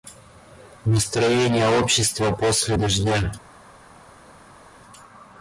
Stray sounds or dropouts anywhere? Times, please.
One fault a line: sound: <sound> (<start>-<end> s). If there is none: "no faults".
no faults